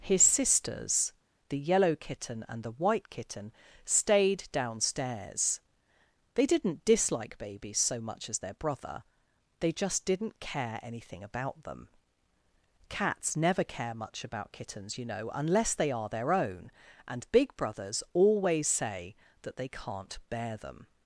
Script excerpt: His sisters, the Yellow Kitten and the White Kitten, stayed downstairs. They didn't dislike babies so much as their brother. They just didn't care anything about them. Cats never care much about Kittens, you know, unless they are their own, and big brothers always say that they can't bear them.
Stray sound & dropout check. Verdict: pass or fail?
pass